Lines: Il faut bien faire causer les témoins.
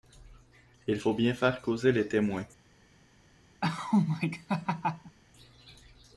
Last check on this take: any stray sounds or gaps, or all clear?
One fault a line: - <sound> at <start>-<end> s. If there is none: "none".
- laugh at 3.6-5.2 s